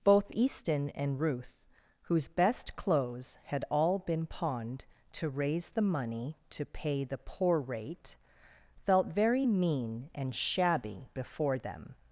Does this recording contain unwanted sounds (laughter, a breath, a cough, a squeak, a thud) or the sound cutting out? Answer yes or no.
no